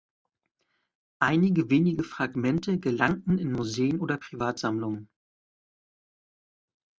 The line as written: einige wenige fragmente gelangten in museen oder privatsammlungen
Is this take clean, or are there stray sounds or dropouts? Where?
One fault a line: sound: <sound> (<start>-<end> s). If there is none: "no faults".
no faults